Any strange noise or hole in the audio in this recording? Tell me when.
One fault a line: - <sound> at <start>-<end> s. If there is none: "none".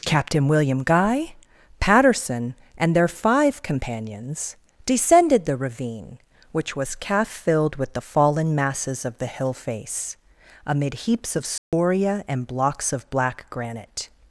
- dropout at 11.6-11.7 s